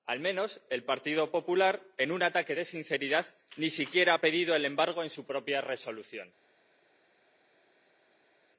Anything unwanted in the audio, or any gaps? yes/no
no